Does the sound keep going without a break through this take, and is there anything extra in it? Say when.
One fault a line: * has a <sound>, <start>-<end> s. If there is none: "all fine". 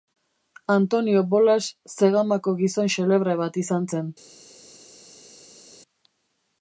all fine